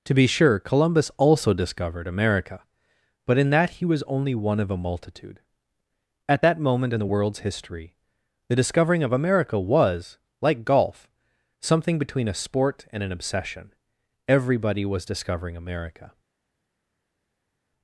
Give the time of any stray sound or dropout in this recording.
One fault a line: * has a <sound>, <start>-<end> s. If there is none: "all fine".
all fine